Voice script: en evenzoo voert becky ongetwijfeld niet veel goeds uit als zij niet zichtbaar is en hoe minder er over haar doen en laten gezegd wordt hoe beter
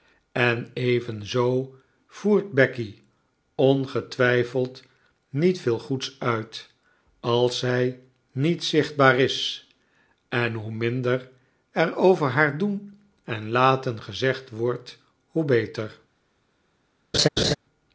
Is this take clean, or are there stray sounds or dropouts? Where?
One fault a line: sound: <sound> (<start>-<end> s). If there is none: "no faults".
sound: laugh (17.1-17.5 s)